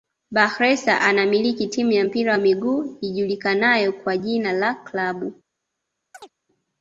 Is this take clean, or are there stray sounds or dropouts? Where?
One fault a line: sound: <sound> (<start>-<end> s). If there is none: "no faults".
sound: chirp (6.1-6.3 s)